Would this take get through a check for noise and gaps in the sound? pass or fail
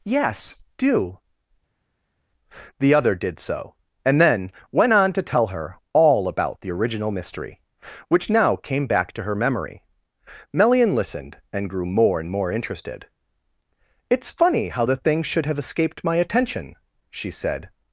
pass